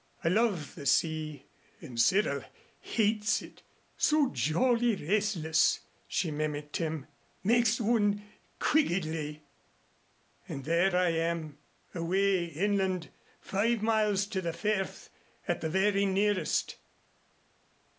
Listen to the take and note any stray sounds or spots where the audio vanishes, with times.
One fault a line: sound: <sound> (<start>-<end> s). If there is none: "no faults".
no faults